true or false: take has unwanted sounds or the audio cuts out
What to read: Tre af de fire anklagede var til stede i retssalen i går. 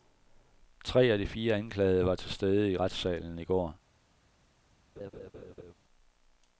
true